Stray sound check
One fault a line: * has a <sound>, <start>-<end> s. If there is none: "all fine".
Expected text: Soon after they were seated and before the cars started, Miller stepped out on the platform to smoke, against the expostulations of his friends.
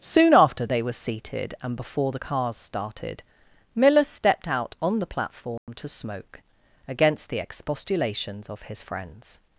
* has a dropout, 5.6-5.7 s